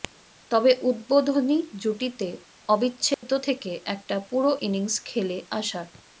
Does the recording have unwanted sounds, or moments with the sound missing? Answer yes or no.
yes